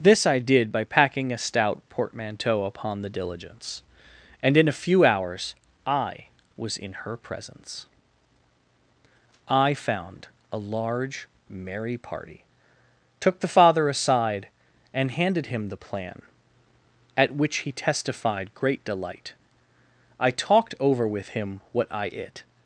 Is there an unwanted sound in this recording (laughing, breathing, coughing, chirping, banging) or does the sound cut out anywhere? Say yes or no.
no